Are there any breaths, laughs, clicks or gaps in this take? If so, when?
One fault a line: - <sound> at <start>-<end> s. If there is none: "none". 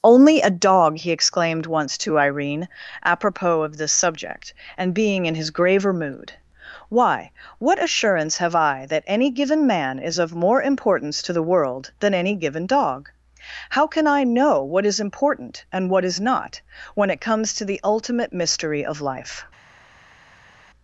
none